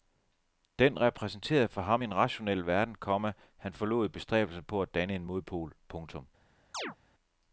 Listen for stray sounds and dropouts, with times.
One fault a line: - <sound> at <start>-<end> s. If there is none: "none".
- chirp at 6.7-7.0 s